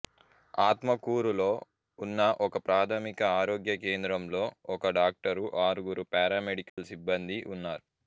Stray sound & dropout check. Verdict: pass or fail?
fail